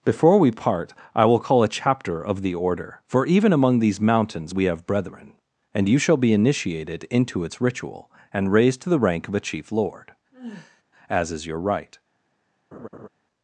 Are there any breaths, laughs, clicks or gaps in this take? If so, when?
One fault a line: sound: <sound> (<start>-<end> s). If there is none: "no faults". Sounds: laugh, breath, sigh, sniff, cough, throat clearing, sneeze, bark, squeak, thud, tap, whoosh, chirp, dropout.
sound: sigh (10.3-10.8 s)
sound: laugh (12.7-13.1 s)